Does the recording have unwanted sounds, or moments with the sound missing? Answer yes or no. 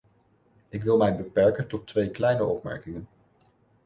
no